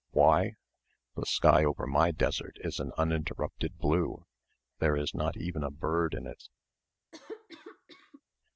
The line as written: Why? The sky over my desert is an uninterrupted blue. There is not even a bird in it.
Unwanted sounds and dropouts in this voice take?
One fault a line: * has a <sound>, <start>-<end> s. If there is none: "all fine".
* has a cough, 7.1-8.2 s